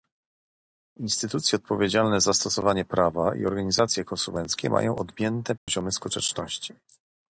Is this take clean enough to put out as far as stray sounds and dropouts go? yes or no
no